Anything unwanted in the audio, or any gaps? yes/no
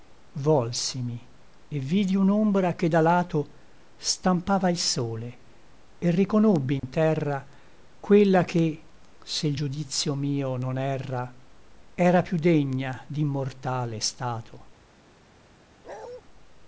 yes